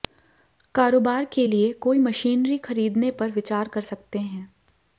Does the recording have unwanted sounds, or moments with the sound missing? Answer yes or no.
no